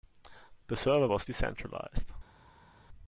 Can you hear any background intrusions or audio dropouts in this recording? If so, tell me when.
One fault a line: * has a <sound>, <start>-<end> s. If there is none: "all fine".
all fine